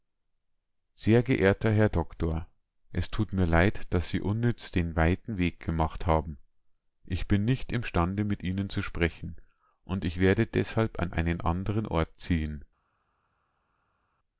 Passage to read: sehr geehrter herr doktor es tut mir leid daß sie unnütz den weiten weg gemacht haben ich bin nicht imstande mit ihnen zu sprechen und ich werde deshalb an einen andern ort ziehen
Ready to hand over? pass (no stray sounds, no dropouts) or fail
pass